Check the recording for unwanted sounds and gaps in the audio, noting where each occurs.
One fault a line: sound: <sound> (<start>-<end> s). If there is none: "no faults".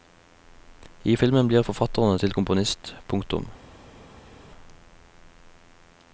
no faults